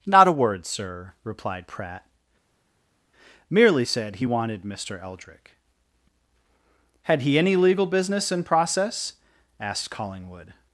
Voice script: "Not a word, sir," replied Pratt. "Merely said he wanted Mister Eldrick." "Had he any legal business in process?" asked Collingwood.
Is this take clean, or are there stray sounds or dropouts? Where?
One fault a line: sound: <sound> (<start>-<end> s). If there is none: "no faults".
no faults